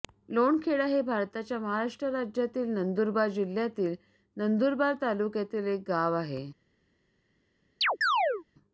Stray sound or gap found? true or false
true